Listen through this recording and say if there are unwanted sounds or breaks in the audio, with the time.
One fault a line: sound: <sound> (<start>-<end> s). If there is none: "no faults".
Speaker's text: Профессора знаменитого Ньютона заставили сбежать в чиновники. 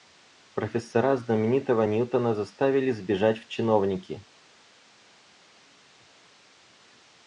no faults